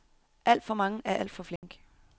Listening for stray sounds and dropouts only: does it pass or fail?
fail